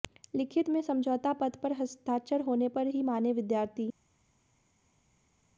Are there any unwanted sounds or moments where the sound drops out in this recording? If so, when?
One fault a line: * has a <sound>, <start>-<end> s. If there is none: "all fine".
all fine